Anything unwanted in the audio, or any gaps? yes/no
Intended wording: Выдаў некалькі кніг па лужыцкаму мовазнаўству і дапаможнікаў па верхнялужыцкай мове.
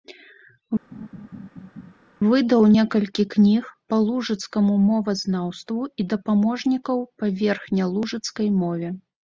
yes